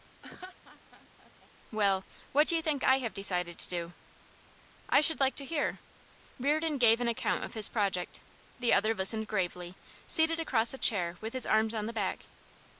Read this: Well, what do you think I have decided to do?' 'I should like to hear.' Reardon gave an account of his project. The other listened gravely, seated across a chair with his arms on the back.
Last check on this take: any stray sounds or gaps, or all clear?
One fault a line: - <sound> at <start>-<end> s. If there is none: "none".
- laugh at 0.2-1.5 s